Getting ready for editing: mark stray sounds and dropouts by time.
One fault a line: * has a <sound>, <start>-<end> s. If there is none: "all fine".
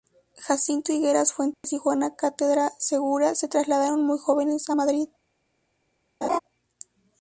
* has a dropout, 1.5-1.6 s
* has a laugh, 6.2-6.4 s